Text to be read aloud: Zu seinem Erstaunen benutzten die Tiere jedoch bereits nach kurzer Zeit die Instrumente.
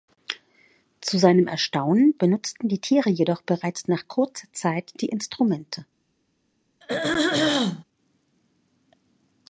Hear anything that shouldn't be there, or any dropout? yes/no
yes